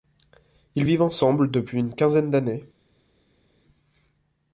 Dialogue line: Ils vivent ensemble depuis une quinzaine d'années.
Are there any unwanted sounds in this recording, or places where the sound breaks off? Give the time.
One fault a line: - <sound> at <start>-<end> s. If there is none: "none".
none